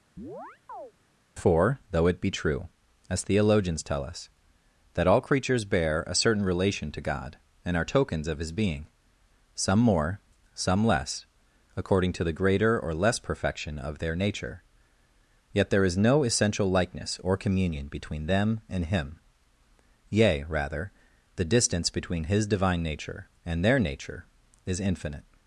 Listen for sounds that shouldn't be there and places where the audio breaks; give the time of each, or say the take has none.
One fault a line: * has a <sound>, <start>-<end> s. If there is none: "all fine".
* has a chirp, 0.2-0.9 s